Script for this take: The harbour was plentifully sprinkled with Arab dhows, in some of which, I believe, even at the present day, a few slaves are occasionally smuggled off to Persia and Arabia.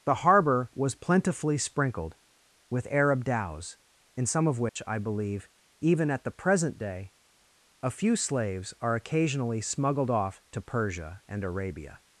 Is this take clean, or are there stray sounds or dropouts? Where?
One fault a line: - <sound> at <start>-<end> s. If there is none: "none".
- dropout at 4.7-4.8 s